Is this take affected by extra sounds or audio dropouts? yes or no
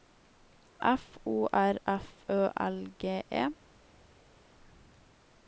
no